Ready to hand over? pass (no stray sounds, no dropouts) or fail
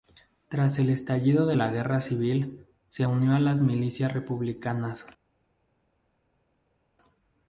pass